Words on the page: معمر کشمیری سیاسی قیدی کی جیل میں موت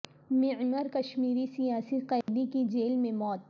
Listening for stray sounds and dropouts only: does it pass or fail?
fail